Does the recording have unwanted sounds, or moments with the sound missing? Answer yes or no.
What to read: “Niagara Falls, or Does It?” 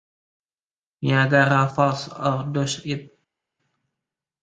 no